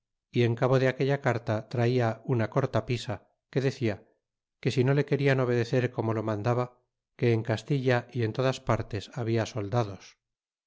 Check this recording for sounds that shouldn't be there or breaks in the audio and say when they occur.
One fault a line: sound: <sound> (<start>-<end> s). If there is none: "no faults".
no faults